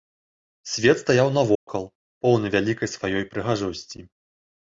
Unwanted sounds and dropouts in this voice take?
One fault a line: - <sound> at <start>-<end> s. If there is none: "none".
- dropout at 1.6-1.7 s